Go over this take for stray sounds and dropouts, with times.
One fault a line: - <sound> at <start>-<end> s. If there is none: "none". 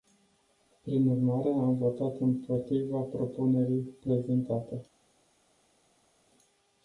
none